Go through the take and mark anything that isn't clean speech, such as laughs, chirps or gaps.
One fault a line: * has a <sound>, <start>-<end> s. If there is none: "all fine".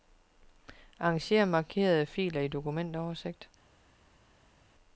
all fine